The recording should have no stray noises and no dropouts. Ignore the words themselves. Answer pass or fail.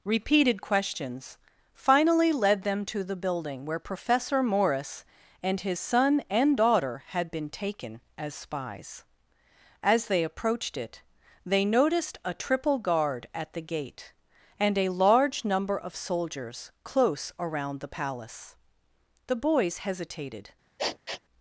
fail